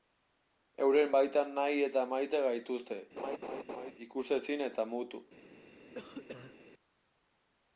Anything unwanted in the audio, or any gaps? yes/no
yes